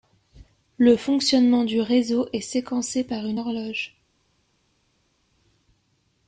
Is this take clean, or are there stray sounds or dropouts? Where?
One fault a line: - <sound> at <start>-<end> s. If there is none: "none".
none